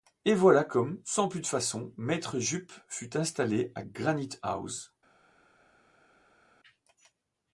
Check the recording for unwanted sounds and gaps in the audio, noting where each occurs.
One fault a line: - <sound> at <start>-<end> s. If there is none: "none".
none